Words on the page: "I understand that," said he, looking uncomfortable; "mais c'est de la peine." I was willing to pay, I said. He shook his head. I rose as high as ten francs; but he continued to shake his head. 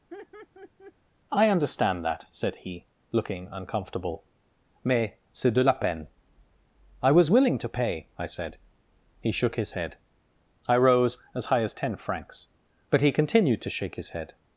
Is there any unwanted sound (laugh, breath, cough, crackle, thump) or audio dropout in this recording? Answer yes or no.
yes